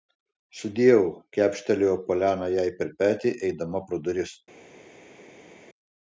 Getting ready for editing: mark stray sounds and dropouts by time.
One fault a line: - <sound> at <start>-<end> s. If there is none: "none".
none